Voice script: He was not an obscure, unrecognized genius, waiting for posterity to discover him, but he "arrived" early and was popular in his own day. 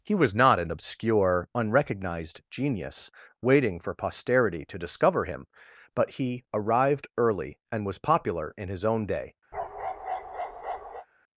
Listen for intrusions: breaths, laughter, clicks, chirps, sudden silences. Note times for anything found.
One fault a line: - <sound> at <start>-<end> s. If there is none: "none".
- bark at 9.5-11.1 s